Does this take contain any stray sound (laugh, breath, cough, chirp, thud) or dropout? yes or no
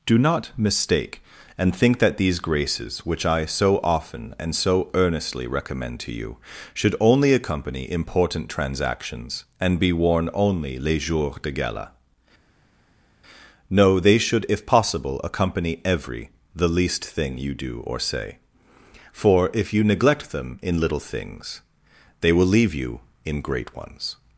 no